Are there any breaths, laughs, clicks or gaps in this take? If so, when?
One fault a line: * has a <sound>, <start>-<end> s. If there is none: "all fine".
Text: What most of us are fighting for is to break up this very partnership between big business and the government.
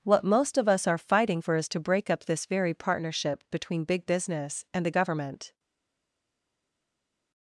all fine